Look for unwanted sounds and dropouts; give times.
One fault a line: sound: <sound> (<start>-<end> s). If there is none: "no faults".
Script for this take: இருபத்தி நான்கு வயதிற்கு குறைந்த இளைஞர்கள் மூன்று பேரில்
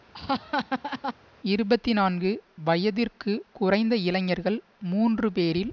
sound: laugh (0.1-1.1 s)